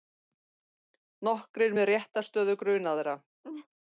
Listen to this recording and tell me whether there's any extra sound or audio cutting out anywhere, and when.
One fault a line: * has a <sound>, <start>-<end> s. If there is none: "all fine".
* has a laugh, 3.4-3.7 s